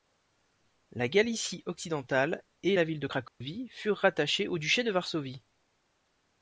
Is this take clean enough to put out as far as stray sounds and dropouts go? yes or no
no